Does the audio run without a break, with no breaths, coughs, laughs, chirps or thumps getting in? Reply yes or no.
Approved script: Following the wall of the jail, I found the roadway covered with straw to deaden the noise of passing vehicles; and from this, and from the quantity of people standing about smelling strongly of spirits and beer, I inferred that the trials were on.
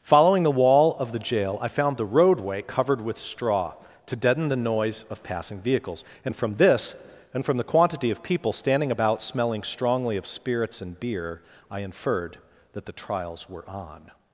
yes